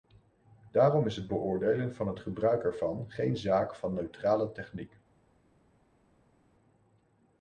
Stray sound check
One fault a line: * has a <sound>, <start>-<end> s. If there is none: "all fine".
all fine